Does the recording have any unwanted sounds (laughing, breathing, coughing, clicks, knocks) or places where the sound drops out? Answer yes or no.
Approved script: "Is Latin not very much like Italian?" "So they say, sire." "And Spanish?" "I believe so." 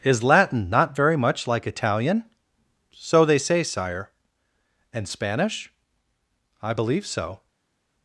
no